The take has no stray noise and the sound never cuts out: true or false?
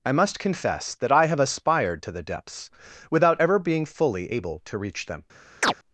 false